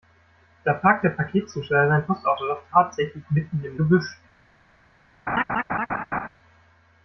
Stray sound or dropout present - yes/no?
yes